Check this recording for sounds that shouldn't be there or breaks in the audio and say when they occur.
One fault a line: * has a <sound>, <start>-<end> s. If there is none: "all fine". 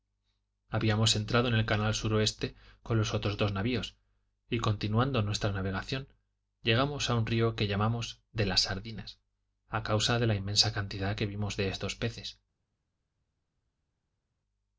all fine